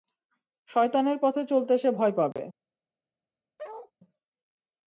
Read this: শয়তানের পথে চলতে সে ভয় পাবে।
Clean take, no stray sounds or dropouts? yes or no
no